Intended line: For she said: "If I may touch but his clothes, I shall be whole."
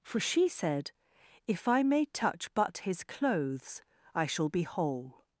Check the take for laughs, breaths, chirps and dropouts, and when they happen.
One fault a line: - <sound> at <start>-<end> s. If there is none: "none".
none